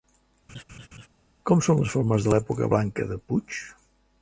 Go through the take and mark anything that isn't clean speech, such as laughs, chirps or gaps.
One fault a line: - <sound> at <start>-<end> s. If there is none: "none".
- laugh at 0.5-1.1 s